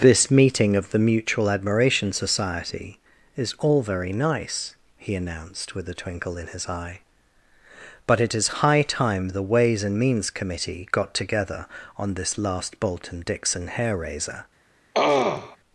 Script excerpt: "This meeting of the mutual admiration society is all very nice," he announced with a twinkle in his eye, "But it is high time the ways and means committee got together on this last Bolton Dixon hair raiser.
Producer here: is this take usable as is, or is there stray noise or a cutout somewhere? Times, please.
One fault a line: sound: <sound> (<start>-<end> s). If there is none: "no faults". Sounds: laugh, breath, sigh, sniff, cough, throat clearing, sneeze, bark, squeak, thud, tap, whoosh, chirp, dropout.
sound: throat clearing (14.9-15.6 s)